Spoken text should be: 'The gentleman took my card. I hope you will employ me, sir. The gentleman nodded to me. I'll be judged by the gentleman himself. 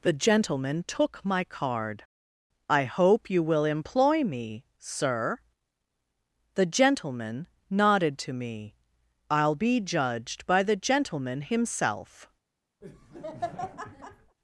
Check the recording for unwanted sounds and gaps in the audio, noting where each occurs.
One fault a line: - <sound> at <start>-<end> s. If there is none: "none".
- laugh at 12.8-14.4 s